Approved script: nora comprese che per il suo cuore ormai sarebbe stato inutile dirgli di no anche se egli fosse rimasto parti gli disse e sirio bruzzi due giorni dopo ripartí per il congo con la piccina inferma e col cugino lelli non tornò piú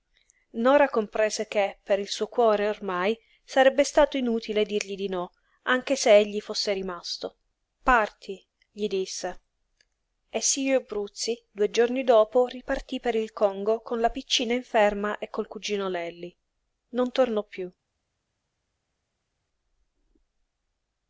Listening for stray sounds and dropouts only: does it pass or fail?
pass